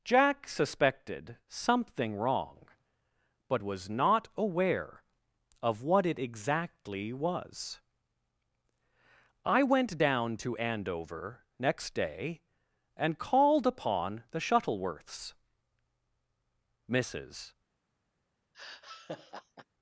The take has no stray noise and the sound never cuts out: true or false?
false